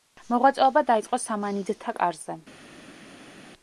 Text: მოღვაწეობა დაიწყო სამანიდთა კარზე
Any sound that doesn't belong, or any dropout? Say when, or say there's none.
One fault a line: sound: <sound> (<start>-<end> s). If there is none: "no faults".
no faults